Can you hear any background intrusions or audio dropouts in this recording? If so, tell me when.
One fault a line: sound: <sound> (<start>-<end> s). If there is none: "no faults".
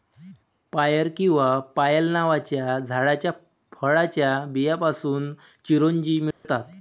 sound: dropout (6.3-6.4 s)